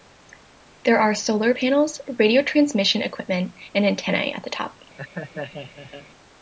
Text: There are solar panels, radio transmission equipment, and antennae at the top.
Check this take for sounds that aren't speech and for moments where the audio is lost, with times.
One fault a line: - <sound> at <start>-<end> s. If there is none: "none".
- laugh at 5.0-6.1 s